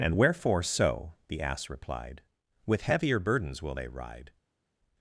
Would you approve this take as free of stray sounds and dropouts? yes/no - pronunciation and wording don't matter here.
yes